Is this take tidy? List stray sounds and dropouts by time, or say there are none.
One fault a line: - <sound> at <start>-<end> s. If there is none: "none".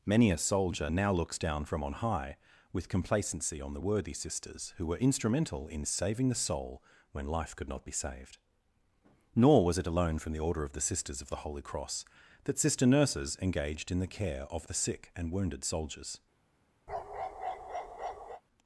- bark at 16.9-18.4 s